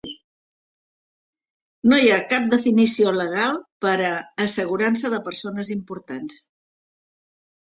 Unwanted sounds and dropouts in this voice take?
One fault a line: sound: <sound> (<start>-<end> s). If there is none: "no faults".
no faults